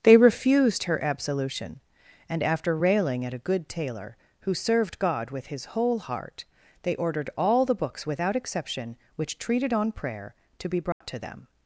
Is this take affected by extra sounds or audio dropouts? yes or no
yes